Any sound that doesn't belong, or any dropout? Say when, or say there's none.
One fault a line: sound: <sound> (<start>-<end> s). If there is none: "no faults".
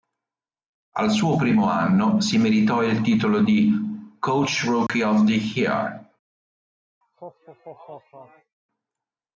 sound: dropout (4.9-4.9 s)
sound: laugh (7.0-8.6 s)